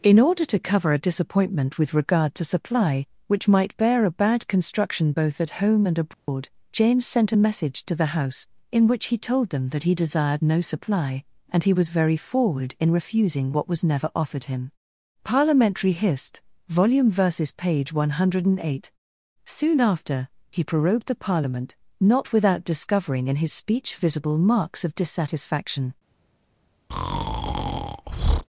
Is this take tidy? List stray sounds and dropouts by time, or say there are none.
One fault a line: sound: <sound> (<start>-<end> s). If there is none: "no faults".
sound: dropout (6.1-6.3 s)
sound: breath (26.9-28.5 s)